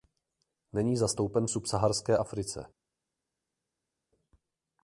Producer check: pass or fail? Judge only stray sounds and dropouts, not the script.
pass